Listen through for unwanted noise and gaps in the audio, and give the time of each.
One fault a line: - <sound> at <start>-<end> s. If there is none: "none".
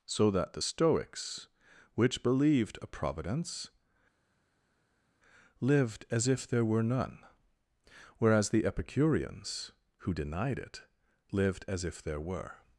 none